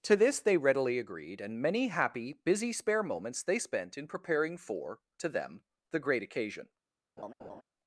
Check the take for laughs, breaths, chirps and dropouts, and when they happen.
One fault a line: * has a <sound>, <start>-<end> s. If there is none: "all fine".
* has a laugh, 7.2-7.6 s